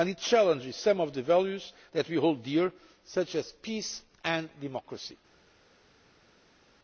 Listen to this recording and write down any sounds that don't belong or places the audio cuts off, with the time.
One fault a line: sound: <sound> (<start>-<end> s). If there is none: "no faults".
no faults